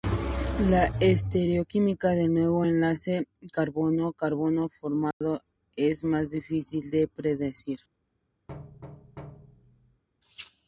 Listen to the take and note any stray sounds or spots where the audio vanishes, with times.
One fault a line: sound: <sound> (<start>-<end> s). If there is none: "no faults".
sound: dropout (5.1-5.2 s)
sound: thud (8.5-10.0 s)